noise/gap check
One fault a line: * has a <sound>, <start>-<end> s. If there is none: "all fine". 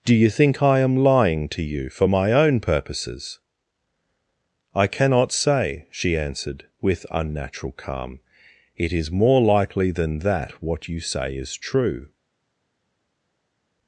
all fine